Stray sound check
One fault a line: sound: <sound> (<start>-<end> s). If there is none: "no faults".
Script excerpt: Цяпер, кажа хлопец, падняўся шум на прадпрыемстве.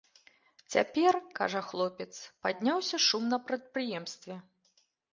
no faults